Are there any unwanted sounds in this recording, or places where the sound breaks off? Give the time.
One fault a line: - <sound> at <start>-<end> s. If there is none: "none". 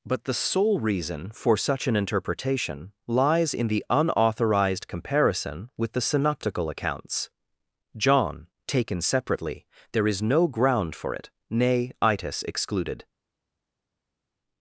none